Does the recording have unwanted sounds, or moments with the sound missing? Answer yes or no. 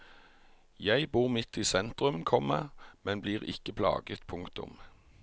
no